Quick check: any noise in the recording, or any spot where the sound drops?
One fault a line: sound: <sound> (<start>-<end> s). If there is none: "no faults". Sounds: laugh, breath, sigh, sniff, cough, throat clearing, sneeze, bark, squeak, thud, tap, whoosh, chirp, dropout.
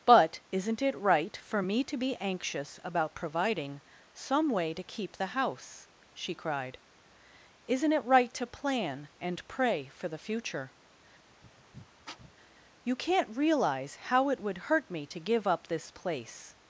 sound: sniff (11.3-12.3 s)